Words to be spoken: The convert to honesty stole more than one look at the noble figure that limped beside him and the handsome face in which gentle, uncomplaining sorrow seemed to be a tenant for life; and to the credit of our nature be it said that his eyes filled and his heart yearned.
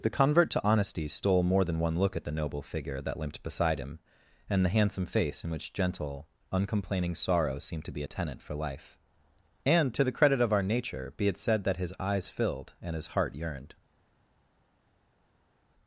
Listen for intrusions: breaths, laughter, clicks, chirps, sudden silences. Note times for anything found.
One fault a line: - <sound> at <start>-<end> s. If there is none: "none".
none